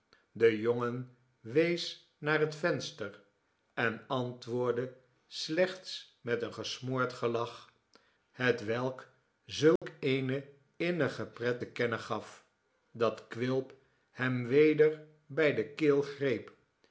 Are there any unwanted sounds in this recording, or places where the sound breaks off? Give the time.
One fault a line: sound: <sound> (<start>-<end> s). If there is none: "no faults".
sound: dropout (9.8-9.8 s)